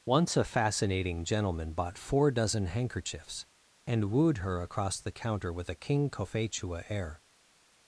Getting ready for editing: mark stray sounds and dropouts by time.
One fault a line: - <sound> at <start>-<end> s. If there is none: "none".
none